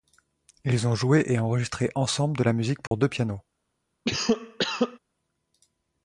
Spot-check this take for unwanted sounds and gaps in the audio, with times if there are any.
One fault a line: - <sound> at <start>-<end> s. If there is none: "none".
- dropout at 2.9-2.9 s
- cough at 4.0-5.0 s